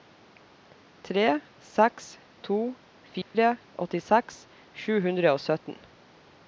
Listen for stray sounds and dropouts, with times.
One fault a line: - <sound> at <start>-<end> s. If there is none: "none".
- dropout at 3.2-3.3 s